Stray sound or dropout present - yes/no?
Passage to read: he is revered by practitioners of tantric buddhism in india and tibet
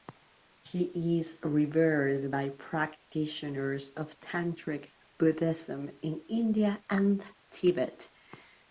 no